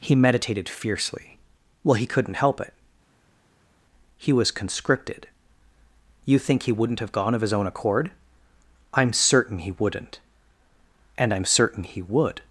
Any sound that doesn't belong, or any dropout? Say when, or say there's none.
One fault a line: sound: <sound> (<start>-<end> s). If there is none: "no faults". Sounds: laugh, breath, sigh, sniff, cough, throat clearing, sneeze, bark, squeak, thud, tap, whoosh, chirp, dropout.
no faults